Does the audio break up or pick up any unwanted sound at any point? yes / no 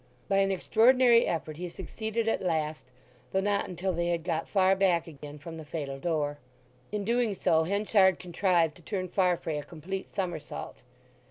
yes